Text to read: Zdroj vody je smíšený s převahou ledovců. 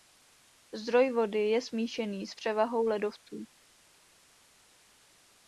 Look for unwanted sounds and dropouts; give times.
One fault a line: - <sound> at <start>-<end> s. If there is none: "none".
none